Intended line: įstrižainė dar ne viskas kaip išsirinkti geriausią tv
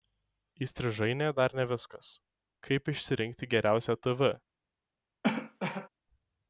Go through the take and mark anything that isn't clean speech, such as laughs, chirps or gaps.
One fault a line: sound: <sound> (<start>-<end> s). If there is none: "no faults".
sound: cough (5.2-5.9 s)